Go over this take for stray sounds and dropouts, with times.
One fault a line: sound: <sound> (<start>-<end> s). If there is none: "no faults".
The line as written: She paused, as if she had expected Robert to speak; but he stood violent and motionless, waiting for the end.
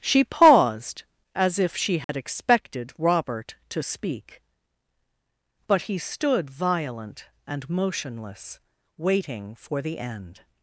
sound: dropout (2.0-2.1 s)